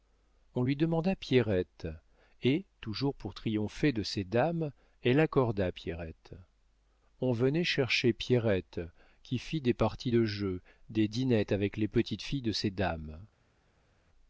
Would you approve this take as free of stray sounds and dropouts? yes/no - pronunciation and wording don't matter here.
yes